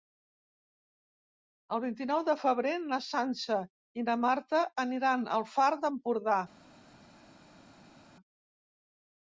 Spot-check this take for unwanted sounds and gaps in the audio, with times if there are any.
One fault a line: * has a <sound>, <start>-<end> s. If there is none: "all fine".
all fine